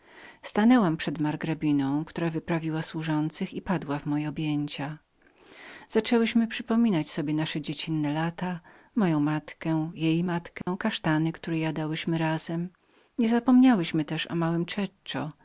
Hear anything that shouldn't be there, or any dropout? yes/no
yes